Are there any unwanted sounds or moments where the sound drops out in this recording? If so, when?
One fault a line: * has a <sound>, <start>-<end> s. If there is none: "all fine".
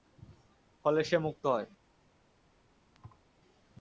* has a thud, 2.9-3.2 s